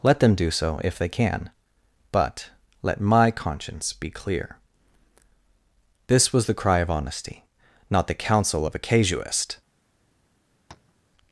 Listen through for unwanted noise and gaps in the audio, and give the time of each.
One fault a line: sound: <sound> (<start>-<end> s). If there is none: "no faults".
sound: tap (10.7-10.9 s)